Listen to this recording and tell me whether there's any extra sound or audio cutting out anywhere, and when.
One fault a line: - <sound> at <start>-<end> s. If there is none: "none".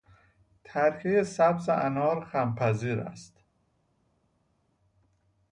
none